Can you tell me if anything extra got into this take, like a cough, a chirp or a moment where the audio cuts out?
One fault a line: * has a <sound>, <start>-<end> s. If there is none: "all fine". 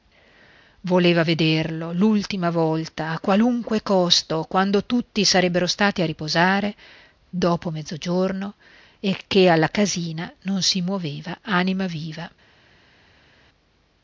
all fine